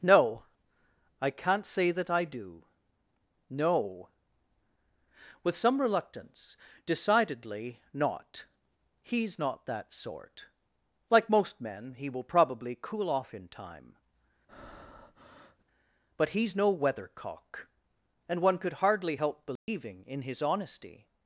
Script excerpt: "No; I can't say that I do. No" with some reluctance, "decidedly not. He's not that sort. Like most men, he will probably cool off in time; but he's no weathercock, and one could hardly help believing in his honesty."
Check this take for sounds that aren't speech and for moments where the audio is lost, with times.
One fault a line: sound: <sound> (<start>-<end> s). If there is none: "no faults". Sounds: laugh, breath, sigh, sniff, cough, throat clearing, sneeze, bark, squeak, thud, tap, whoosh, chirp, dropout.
sound: breath (14.5-15.6 s)
sound: dropout (19.6-19.7 s)